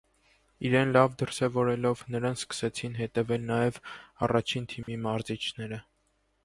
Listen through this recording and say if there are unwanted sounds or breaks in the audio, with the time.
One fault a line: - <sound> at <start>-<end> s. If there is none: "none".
- dropout at 4.8-4.9 s